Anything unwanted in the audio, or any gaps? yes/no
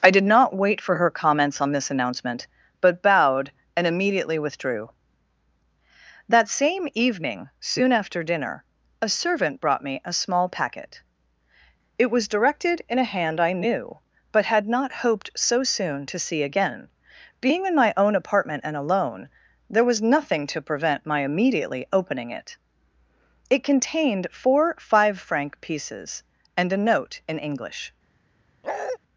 yes